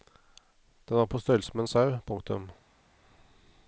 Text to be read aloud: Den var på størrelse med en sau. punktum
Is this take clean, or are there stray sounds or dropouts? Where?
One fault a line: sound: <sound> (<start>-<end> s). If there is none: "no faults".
no faults